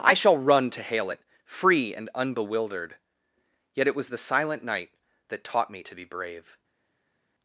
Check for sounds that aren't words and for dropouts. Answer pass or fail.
pass